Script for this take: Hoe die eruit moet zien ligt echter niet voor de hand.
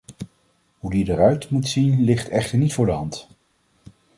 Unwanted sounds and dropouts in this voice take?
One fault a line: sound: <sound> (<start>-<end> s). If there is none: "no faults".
no faults